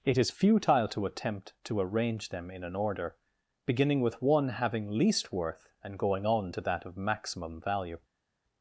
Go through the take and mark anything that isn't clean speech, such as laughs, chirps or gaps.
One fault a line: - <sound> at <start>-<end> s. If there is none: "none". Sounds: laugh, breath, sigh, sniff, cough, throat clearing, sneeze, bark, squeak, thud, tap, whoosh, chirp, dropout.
none